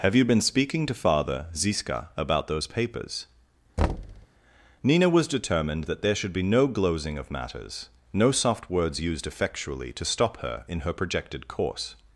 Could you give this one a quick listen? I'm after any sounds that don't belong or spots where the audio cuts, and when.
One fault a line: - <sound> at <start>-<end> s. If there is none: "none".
- thud at 3.8-4.3 s